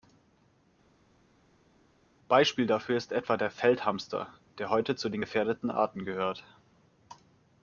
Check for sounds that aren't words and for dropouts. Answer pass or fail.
pass